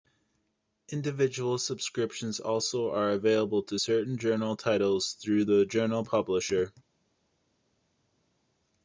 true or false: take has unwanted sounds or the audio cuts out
false